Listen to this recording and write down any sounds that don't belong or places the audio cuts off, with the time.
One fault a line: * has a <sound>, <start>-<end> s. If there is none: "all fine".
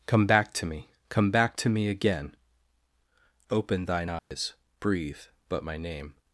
* has a dropout, 4.2-4.3 s